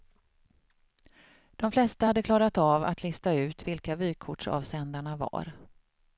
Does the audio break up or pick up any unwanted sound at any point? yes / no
no